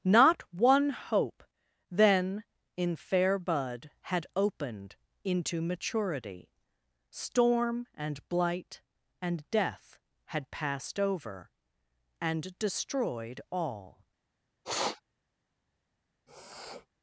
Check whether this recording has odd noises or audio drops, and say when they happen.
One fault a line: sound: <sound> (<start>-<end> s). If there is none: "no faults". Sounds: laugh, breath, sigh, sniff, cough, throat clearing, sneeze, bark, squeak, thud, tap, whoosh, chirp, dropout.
sound: sniff (14.6-15.0 s)
sound: sniff (16.3-16.9 s)